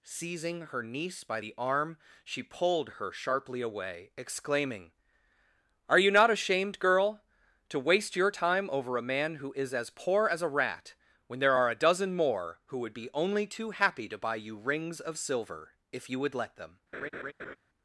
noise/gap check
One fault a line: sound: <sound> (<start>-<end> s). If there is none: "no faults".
sound: laugh (16.9-17.6 s)